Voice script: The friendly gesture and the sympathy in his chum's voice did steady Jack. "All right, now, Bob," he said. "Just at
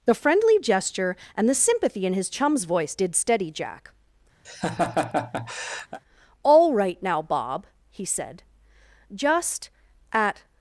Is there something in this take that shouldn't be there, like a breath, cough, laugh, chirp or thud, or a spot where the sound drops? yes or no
yes